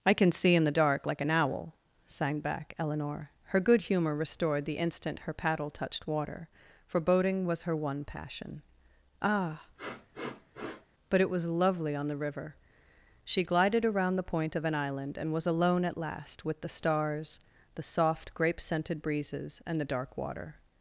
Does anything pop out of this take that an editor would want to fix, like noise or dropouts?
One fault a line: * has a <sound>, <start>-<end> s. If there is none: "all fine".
* has a sniff, 9.8-10.9 s